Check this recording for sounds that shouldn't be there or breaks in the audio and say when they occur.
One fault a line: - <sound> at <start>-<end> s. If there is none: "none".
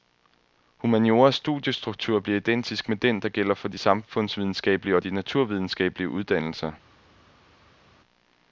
none